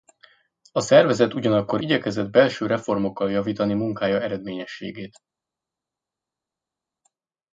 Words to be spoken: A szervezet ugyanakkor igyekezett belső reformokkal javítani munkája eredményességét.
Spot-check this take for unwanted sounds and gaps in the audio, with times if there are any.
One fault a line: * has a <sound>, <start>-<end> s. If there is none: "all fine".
all fine